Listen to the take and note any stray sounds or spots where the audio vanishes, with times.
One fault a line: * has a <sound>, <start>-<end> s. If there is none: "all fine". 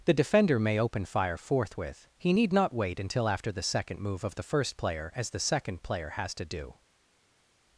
all fine